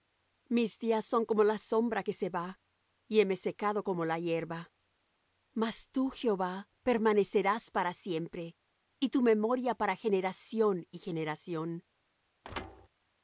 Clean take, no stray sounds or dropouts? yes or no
no